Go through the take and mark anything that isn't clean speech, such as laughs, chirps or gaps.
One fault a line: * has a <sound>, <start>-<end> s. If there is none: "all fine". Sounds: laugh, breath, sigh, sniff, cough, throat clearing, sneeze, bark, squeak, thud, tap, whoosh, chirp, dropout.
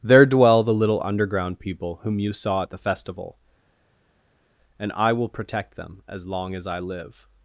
all fine